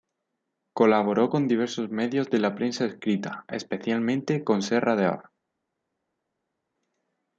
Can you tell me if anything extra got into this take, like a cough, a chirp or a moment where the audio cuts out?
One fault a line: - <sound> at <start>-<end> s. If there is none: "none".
none